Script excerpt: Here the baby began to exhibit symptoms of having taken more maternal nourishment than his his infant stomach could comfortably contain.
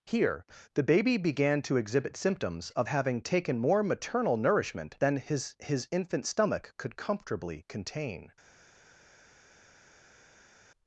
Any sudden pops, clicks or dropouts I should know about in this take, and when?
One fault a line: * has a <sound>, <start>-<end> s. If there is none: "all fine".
all fine